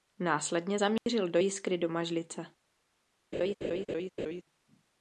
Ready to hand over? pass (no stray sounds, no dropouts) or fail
fail